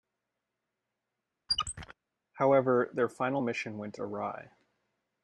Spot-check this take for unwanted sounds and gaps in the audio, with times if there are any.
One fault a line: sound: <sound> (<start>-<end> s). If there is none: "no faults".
sound: squeak (1.5-1.9 s)